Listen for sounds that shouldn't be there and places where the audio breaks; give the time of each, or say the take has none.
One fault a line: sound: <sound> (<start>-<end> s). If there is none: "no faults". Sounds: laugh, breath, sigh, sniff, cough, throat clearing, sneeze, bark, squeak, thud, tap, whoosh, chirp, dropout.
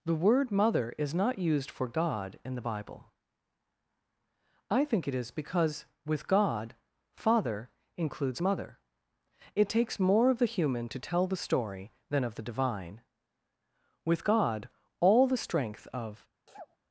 sound: sneeze (16.5-16.8 s)